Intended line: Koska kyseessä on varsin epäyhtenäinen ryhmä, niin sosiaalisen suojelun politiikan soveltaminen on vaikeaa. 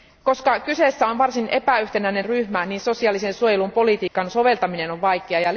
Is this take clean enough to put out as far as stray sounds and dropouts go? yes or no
no